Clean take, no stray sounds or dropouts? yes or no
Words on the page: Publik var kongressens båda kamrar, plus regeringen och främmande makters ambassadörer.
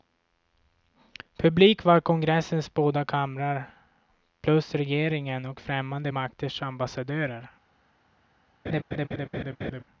no